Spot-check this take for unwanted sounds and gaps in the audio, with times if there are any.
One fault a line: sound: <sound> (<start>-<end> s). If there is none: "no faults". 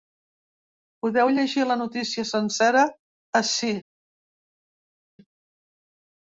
no faults